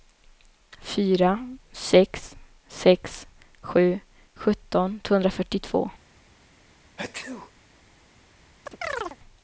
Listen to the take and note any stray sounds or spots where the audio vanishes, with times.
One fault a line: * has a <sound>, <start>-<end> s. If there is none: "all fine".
* has a sneeze, 7.0-7.5 s
* has a chirp, 8.7-9.2 s